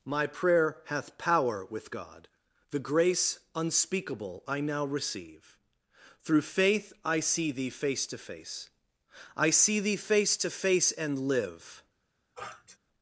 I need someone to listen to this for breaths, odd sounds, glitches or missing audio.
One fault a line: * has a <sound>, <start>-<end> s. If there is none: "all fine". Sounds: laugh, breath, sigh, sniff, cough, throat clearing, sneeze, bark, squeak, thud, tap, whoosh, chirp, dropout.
* has a sniff, 12.3-12.8 s